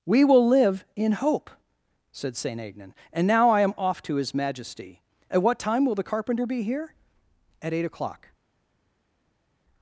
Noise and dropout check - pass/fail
pass